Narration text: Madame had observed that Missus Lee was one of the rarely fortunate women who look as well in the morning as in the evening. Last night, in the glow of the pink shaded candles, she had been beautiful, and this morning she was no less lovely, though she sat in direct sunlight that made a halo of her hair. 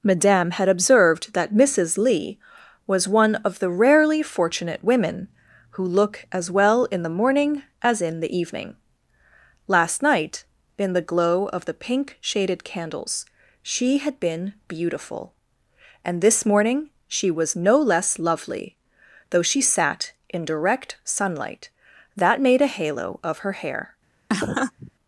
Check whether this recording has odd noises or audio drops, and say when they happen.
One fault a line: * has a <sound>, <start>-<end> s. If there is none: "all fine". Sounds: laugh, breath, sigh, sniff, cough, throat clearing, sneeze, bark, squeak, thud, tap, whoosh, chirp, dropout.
* has a laugh, 24.3-24.9 s